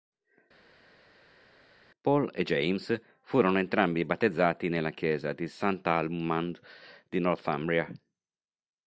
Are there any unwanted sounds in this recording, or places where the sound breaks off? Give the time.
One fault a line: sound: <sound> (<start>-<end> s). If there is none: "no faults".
no faults